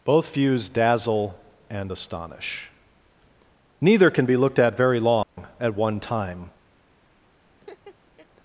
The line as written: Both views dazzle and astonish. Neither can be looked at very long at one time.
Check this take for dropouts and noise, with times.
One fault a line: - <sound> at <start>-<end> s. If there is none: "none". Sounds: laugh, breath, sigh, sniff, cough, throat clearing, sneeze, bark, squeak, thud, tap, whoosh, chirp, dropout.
- dropout at 5.2-5.4 s
- laugh at 7.6-8.3 s